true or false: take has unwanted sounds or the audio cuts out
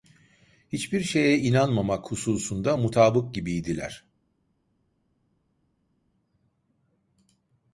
false